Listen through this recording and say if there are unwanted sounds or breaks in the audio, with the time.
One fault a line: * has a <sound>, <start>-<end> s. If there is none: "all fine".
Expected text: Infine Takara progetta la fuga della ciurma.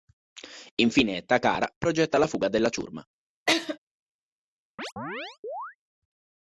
* has a laugh, 3.5-3.8 s
* has a chirp, 4.8-5.8 s